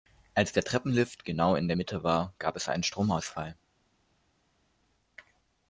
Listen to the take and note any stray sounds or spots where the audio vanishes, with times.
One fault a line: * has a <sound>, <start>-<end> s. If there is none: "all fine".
all fine